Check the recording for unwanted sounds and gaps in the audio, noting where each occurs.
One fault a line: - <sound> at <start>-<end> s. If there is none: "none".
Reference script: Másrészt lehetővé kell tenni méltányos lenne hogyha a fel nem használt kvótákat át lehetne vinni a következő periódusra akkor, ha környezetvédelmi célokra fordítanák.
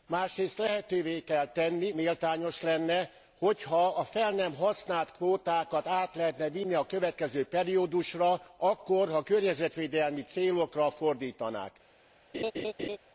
- laugh at 12.3-13.0 s